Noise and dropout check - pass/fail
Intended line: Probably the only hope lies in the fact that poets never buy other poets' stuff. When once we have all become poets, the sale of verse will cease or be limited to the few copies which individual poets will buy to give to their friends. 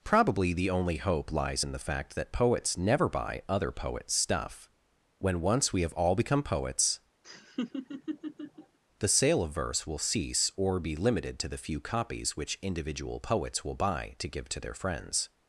fail